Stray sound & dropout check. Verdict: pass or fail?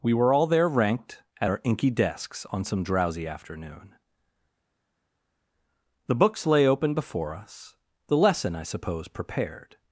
pass